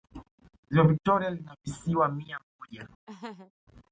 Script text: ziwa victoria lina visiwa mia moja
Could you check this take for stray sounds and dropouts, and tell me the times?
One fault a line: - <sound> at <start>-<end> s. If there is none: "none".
- laugh at 3.1-3.5 s